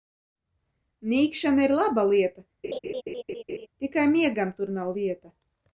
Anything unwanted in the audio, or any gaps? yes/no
yes